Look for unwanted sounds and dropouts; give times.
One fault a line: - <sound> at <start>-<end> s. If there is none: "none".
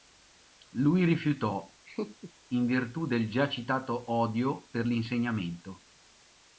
- laugh at 1.9-2.3 s